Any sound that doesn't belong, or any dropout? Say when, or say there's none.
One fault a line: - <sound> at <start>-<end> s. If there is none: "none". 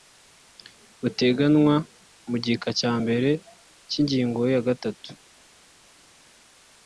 none